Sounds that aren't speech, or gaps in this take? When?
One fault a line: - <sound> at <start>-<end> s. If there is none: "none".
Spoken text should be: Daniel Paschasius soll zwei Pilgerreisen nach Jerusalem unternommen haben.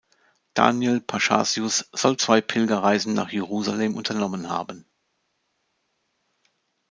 none